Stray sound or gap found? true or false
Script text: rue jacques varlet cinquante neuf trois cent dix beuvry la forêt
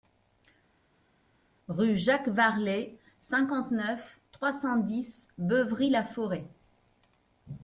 false